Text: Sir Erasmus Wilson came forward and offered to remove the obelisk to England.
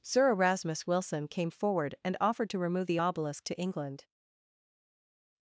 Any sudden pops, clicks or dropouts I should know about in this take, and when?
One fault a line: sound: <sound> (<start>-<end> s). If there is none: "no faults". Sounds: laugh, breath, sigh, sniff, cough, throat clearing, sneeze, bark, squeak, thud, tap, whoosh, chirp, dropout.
no faults